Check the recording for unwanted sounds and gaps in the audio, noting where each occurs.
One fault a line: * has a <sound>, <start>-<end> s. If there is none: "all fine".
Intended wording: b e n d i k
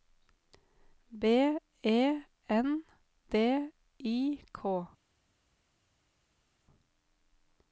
all fine